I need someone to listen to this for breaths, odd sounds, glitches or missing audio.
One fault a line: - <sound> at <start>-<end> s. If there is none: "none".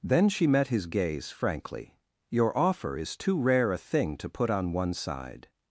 none